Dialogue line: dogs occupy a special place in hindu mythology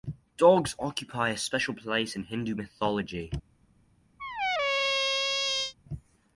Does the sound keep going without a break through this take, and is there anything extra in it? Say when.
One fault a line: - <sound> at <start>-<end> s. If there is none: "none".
- squeak at 4.2-5.7 s